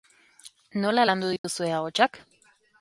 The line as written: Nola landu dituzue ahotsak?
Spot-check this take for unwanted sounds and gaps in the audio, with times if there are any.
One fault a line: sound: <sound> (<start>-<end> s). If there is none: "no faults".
sound: dropout (1.4-1.4 s)